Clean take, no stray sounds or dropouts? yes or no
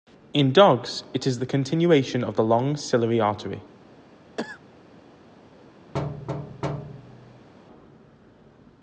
no